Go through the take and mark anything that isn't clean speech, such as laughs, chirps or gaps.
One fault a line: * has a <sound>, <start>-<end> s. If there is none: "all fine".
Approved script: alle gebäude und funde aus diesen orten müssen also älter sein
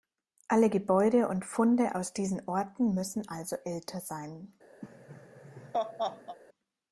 * has a laugh, 4.8-6.4 s